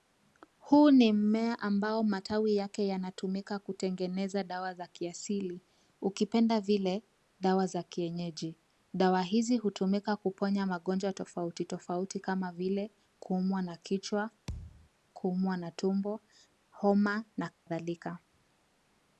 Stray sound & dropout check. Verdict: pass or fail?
fail